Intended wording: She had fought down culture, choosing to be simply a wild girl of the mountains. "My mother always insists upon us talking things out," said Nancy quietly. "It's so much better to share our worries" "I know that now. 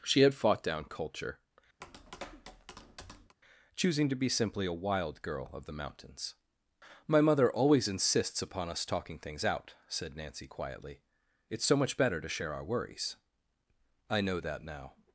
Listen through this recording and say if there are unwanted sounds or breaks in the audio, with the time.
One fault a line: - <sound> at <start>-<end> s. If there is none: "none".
- tap at 1.8-3.4 s